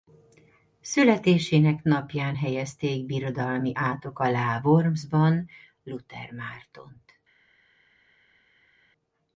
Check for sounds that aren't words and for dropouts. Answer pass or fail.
pass